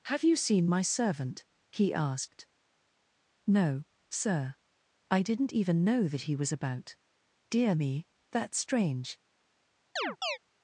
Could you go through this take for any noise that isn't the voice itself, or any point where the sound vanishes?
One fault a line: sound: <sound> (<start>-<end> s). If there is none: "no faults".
sound: chirp (10.0-10.4 s)